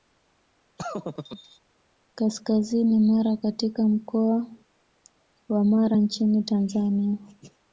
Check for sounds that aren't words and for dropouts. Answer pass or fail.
fail